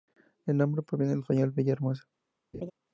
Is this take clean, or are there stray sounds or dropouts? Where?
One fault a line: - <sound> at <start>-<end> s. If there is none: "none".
- laugh at 2.5-2.7 s